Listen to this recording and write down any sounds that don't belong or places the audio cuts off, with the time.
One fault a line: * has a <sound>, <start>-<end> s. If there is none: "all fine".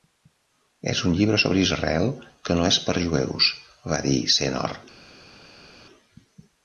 all fine